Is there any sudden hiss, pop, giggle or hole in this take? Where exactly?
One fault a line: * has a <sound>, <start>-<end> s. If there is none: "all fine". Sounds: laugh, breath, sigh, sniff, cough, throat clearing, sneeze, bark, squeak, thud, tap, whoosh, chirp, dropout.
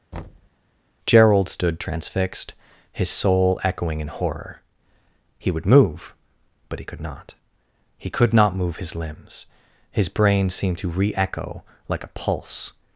* has a thud, 0.1-0.5 s